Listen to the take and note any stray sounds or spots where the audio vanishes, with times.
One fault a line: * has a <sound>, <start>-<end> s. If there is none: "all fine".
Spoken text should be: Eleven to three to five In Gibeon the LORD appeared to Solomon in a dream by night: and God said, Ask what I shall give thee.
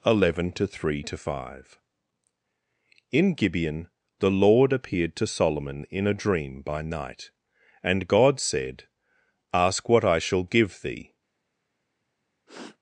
* has a sniff, 12.5-12.8 s